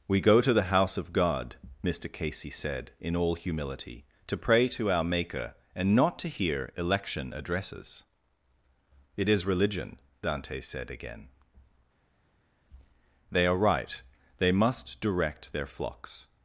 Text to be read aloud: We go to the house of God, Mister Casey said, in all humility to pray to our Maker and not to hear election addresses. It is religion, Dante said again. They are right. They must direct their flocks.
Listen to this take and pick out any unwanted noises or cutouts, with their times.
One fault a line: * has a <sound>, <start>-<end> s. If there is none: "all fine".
all fine